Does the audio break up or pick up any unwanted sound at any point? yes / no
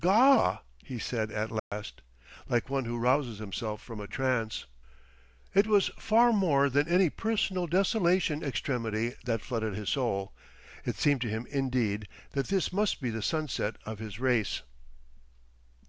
yes